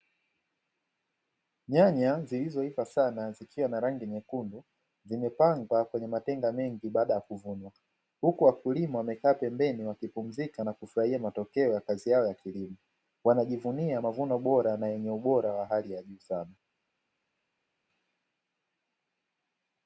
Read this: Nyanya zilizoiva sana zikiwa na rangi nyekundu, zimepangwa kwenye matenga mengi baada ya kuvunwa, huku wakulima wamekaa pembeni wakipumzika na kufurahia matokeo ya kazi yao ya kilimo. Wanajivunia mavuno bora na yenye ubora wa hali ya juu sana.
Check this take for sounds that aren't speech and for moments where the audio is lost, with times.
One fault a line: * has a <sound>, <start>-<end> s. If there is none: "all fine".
all fine